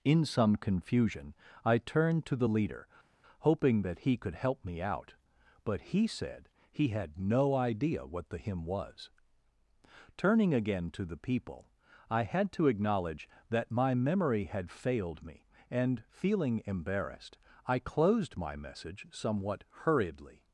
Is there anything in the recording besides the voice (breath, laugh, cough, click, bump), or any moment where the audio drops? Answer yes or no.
no